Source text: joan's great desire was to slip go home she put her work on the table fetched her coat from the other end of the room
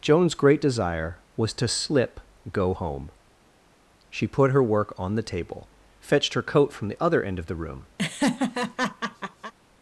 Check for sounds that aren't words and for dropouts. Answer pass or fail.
fail